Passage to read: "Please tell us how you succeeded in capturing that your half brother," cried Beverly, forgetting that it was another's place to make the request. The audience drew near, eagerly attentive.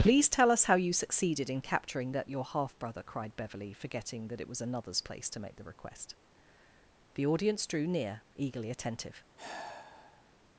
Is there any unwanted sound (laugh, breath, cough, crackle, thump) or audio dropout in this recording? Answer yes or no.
yes